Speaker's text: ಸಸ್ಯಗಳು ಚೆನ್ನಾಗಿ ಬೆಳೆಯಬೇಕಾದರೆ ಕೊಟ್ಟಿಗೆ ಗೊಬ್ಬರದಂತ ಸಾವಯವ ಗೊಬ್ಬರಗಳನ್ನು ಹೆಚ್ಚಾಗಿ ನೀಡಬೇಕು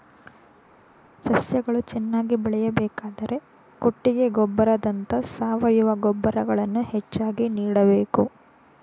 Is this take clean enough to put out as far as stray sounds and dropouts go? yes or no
yes